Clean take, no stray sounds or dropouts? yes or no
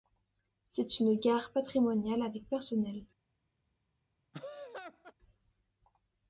no